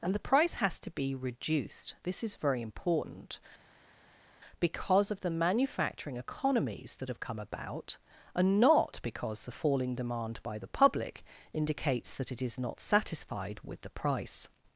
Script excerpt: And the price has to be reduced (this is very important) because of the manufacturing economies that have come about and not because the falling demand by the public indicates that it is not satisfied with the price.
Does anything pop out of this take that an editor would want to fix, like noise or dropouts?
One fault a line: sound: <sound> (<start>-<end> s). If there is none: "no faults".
no faults